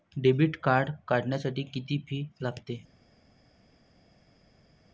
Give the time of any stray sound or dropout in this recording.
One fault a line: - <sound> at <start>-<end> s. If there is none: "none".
none